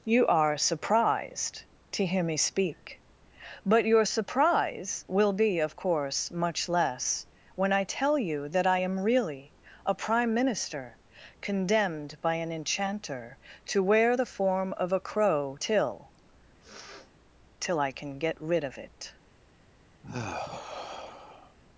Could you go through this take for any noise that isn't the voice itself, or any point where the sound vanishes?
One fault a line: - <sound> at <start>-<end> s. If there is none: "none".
- sniff at 16.6-17.1 s
- sigh at 20.0-21.6 s